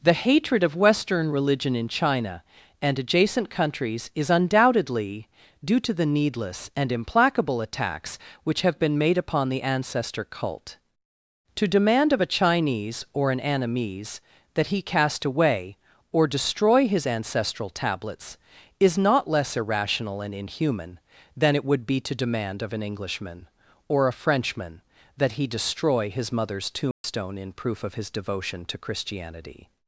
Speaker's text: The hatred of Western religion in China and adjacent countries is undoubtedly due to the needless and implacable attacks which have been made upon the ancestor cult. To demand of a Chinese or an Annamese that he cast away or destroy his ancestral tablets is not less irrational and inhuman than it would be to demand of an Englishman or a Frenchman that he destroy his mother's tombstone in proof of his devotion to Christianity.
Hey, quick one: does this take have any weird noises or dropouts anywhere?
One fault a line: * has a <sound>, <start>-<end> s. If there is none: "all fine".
* has a dropout, 26.9-27.0 s